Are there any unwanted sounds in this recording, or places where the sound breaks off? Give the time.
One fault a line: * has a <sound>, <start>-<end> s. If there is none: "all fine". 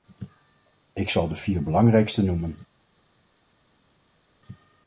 all fine